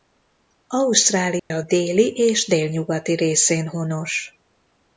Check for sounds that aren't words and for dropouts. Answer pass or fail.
fail